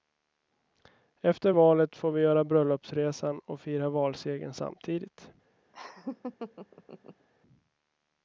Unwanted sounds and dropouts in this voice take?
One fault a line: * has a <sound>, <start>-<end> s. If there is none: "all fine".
* has a laugh, 5.7-7.3 s